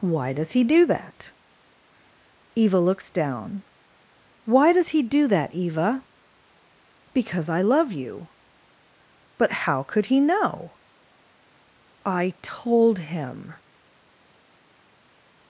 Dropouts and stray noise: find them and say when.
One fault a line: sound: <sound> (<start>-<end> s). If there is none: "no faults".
no faults